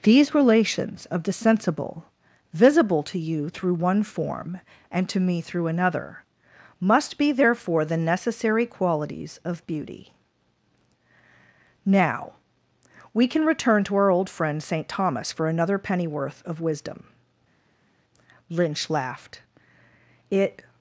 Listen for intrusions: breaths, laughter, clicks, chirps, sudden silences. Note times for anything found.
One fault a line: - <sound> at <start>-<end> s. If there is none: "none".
none